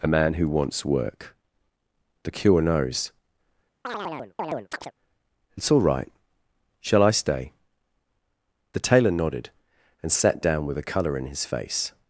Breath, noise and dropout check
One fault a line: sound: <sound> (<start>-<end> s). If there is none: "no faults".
sound: chirp (3.8-4.9 s)